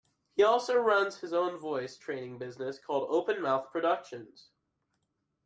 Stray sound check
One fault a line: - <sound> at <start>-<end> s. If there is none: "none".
none